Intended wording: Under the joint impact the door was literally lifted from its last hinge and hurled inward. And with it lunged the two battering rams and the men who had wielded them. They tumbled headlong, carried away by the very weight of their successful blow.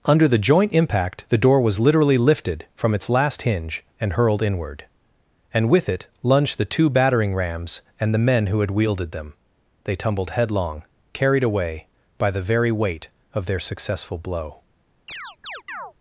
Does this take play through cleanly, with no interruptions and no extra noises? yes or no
no